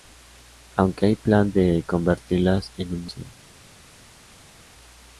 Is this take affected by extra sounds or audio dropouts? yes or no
no